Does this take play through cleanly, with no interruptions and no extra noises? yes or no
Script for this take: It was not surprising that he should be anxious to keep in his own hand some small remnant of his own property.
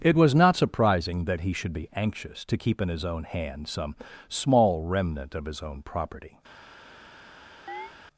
no